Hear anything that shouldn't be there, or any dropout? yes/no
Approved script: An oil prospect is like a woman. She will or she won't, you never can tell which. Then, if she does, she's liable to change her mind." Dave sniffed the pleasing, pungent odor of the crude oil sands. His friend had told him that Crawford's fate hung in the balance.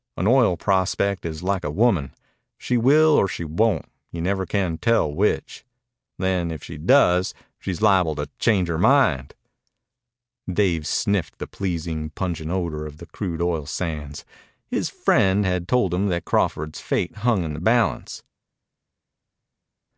no